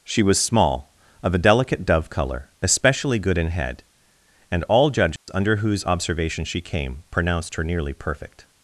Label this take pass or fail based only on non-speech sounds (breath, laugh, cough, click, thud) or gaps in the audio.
fail